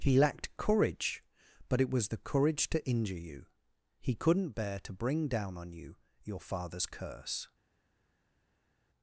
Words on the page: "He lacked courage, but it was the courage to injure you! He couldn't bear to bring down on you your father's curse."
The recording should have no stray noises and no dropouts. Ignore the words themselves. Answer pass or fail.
pass